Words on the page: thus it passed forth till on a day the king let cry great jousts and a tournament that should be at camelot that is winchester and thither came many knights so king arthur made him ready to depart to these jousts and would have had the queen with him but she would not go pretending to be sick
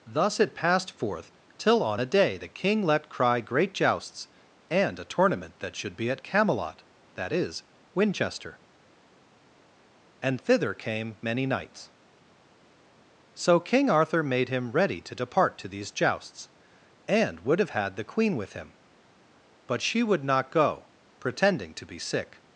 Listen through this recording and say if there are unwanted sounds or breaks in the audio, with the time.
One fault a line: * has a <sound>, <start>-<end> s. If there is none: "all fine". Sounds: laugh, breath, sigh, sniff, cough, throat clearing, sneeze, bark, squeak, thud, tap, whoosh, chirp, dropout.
all fine